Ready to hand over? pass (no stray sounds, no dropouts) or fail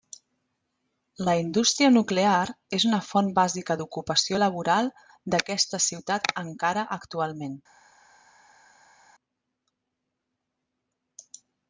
pass